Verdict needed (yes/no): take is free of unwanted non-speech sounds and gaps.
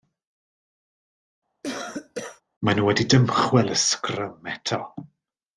no